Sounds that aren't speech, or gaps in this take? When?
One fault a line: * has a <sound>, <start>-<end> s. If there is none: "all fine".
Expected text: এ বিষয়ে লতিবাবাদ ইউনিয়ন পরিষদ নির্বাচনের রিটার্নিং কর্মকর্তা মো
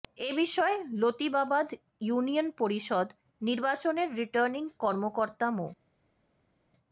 all fine